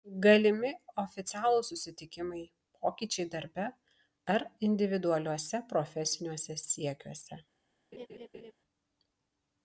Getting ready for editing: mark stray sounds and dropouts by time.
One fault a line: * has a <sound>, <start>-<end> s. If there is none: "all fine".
* has a laugh, 7.9-8.5 s